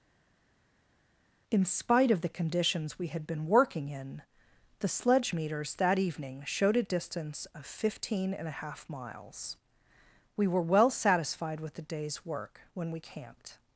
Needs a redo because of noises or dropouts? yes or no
no